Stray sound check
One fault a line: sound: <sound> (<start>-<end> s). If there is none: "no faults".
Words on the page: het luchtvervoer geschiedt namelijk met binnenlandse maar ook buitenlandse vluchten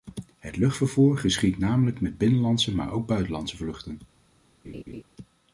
sound: laugh (4.6-5.0 s)